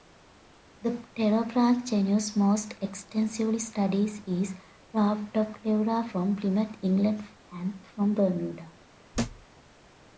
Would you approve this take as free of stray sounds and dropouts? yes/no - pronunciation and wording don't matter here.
no